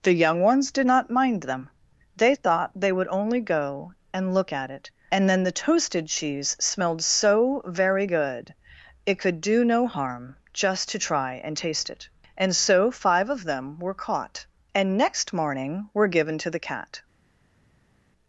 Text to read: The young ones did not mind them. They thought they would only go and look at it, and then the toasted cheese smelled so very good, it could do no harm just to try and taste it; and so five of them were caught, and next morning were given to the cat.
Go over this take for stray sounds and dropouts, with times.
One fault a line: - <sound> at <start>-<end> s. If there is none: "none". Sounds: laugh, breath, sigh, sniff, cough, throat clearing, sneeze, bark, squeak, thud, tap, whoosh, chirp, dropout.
none